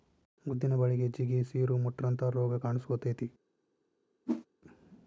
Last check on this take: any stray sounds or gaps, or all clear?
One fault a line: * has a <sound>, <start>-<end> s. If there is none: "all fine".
* has a whoosh, 4.3-4.5 s